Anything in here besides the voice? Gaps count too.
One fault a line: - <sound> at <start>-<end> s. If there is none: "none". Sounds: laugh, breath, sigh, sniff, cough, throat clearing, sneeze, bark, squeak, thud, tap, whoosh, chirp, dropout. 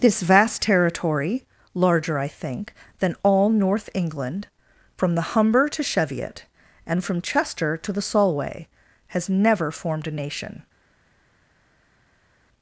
none